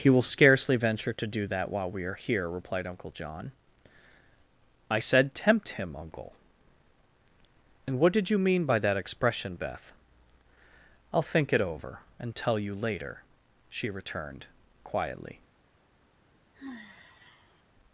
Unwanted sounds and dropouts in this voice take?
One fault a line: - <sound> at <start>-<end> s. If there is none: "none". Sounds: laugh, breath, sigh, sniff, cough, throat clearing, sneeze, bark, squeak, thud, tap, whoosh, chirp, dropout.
- sigh at 16.5-17.6 s